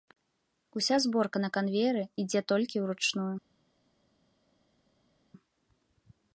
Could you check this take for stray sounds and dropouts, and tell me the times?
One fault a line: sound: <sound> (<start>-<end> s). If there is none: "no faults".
no faults